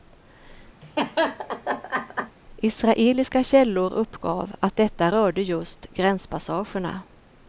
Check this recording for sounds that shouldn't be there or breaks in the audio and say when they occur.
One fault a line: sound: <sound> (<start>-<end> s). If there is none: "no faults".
sound: laugh (0.8-2.4 s)